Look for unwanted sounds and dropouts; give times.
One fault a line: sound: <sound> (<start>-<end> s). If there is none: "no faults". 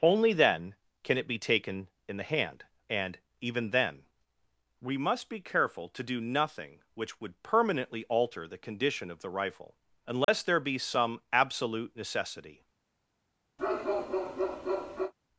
sound: dropout (10.2-10.3 s)
sound: bark (13.6-15.1 s)